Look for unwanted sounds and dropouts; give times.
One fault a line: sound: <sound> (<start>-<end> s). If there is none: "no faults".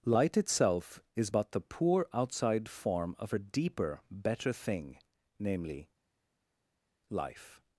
no faults